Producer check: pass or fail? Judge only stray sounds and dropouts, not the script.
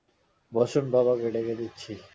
pass